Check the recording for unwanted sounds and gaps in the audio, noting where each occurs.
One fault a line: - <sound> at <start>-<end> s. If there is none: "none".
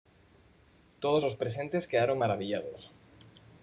none